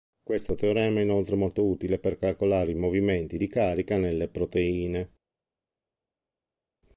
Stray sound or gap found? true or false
false